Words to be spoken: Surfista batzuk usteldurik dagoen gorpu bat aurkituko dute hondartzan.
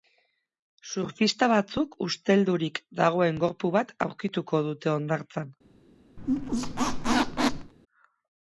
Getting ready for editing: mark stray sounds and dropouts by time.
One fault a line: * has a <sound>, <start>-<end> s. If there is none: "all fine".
* has a squeak, 6.2-7.7 s